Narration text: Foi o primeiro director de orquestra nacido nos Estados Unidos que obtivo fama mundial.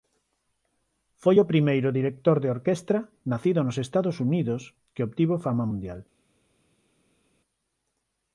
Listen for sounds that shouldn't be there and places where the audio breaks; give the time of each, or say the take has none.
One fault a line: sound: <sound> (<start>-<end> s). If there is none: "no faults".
no faults